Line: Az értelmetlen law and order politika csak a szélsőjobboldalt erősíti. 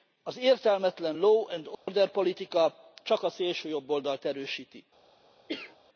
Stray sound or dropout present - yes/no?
yes